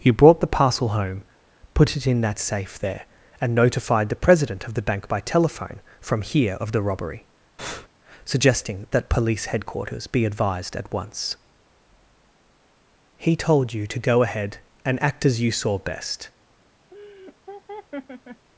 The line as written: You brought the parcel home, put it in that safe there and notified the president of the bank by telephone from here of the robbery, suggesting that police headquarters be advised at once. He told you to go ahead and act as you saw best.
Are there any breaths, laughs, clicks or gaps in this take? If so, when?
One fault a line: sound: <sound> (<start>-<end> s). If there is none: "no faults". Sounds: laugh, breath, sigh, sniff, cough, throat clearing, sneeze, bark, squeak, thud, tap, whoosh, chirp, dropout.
sound: breath (7.6-7.9 s)
sound: laugh (16.9-18.5 s)